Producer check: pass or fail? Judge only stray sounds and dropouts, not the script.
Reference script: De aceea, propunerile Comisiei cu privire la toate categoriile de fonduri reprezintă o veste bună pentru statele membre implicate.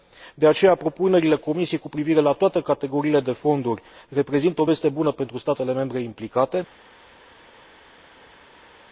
pass